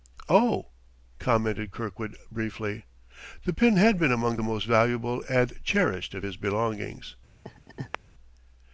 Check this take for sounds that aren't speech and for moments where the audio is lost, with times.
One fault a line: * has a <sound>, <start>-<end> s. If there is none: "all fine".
* has a laugh, 7.4-8.0 s